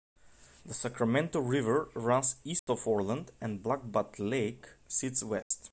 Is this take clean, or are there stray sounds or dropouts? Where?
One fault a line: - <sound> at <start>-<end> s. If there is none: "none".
- dropout at 2.6-2.7 s
- dropout at 5.4-5.5 s